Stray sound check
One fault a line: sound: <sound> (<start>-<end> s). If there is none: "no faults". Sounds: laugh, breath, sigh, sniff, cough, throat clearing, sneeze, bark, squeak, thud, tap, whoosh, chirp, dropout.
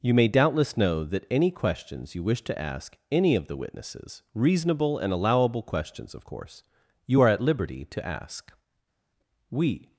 no faults